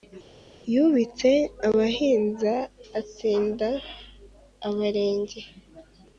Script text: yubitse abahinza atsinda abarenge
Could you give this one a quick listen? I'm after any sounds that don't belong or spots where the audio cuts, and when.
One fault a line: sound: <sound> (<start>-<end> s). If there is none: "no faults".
no faults